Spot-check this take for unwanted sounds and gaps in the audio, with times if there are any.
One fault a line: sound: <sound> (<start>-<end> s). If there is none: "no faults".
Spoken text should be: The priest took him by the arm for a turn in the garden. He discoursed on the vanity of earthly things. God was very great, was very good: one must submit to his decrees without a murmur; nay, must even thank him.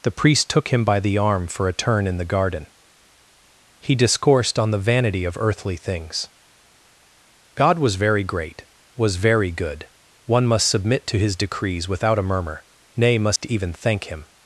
sound: dropout (13.4-13.4 s)